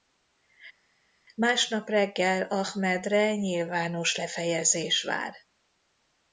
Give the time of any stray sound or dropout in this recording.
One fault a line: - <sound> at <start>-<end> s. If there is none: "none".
none